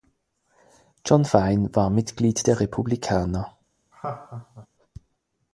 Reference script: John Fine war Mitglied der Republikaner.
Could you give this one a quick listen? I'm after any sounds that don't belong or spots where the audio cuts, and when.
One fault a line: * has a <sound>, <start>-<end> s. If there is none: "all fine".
* has a laugh, 3.9-4.7 s